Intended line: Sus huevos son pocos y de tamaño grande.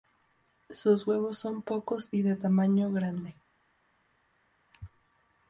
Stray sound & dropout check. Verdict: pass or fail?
pass